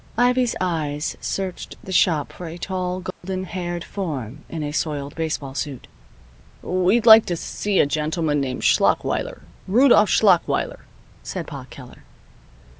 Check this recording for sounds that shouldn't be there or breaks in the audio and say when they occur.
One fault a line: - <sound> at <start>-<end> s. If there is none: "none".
- dropout at 3.1-3.2 s